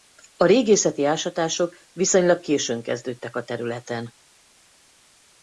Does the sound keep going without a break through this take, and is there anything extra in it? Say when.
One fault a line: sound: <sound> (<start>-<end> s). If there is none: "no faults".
no faults